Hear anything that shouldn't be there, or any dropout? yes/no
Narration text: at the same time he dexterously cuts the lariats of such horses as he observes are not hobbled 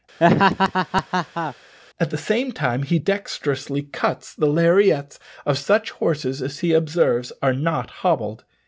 yes